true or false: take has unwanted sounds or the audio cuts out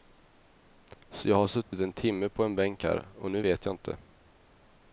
true